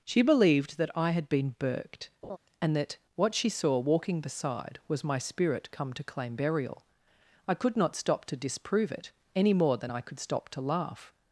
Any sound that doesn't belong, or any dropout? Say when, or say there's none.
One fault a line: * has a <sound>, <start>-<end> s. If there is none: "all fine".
* has a laugh, 2.2-2.4 s